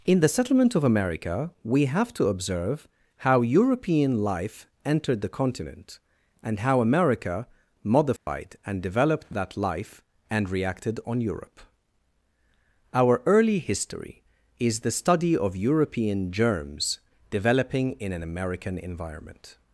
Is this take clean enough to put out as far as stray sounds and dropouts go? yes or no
no